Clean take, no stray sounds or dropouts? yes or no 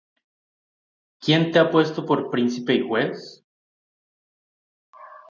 yes